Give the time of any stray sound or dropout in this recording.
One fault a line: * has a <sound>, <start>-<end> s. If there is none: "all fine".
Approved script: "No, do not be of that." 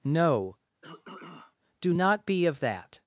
* has a throat clearing, 0.8-1.6 s